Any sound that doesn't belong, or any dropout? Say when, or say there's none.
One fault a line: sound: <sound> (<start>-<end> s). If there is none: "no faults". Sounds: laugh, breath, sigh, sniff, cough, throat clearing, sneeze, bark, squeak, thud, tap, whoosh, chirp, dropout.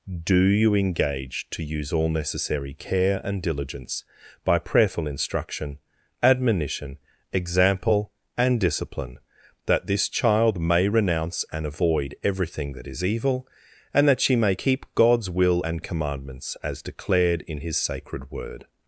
no faults